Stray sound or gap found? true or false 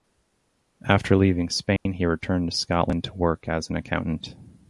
true